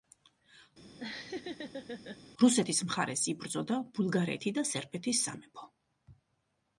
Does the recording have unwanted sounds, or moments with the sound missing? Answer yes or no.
yes